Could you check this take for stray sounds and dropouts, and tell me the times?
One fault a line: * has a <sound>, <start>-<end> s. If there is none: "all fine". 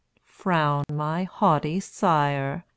* has a dropout, 0.8-0.9 s